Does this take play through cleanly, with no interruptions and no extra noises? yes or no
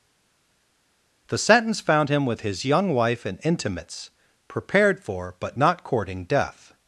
yes